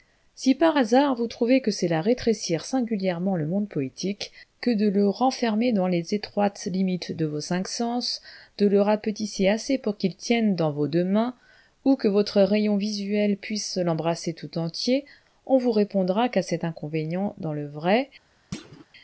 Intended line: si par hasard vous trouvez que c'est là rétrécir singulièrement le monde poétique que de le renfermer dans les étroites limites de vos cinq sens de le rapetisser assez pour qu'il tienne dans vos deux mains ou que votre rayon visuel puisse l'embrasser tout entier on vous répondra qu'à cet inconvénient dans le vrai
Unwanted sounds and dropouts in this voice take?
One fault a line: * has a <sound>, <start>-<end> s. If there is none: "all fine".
* has a thud, 18.5-18.9 s